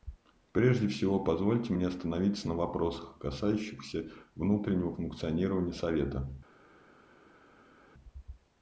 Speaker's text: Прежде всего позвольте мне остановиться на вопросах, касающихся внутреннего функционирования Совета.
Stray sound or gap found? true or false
false